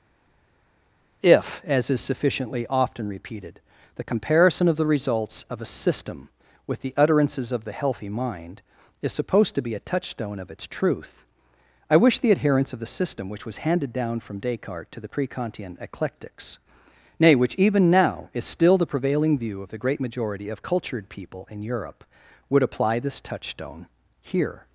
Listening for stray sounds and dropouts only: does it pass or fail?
pass